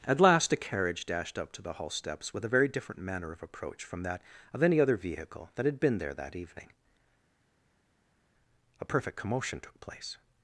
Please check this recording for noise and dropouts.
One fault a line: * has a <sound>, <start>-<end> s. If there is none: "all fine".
all fine